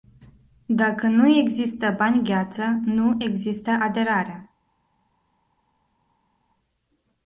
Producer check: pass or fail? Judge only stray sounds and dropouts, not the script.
pass